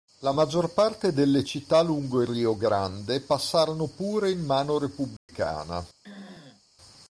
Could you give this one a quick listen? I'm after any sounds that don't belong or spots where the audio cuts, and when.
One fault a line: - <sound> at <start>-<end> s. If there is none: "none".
- dropout at 5.2-5.3 s
- throat clearing at 6.0-6.6 s